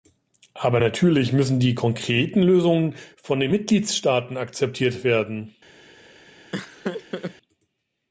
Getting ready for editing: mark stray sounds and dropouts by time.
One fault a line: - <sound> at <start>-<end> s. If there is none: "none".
- laugh at 6.5-7.3 s